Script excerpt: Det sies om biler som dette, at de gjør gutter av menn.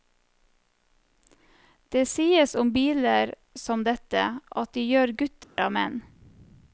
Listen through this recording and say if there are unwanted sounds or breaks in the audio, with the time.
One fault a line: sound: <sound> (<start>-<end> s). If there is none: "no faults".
sound: dropout (5.4-5.6 s)